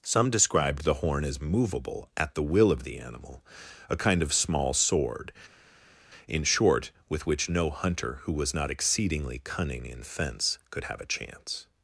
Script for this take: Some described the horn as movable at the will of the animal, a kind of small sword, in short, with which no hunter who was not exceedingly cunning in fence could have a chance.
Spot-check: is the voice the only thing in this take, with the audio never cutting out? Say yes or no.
yes